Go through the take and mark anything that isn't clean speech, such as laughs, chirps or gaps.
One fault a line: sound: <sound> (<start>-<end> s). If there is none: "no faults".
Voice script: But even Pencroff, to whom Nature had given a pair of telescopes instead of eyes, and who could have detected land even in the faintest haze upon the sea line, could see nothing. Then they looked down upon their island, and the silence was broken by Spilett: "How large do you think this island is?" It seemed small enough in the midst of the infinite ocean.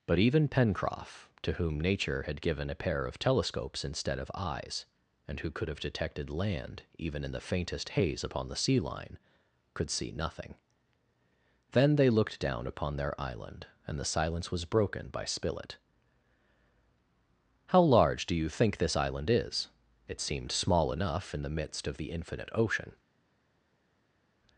no faults